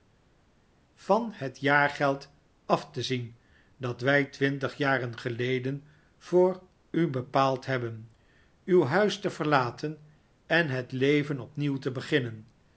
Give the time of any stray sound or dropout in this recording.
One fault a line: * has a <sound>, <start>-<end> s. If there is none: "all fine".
all fine